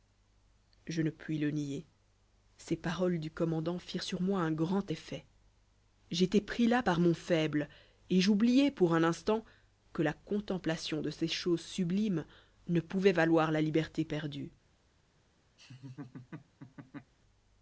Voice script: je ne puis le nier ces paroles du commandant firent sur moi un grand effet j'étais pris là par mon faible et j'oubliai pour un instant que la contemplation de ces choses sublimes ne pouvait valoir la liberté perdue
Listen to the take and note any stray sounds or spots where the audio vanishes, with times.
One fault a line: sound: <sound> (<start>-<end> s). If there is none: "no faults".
sound: laugh (15.6-17.1 s)